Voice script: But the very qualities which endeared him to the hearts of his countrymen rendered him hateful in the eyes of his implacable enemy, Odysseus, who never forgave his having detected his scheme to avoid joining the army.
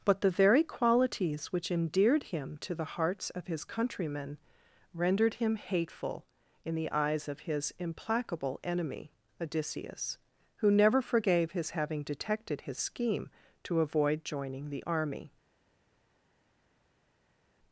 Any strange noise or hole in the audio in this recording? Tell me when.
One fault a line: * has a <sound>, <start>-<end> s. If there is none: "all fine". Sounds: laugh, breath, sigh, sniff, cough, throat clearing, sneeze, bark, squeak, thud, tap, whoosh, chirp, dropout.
all fine